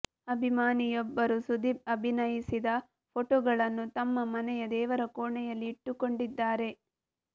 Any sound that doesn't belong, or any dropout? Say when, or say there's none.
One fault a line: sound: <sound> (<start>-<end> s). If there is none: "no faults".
no faults